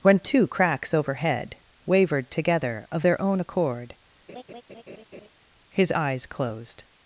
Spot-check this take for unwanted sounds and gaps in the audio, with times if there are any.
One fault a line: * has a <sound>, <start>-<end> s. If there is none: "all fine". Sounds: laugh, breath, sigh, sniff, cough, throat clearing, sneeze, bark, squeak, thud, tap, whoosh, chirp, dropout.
* has a laugh, 4.3-5.3 s